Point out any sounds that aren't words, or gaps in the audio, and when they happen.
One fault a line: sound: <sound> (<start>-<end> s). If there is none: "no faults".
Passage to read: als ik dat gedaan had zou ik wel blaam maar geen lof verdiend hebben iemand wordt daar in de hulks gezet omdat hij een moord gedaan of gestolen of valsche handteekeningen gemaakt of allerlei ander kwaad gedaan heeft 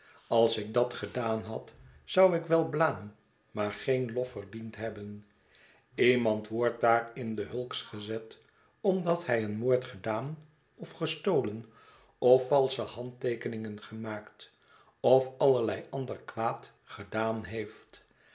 no faults